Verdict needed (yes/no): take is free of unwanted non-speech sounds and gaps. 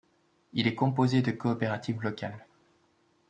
yes